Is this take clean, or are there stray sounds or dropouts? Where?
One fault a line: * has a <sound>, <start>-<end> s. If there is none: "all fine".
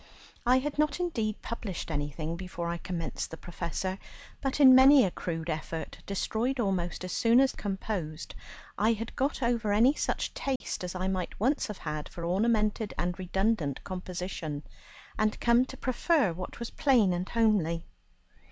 * has a dropout, 10.6-10.6 s